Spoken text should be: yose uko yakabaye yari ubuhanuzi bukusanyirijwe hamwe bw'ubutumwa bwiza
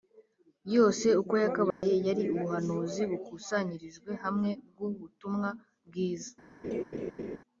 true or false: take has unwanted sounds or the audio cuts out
true